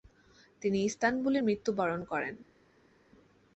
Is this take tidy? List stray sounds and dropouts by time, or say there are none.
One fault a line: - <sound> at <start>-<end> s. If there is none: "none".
none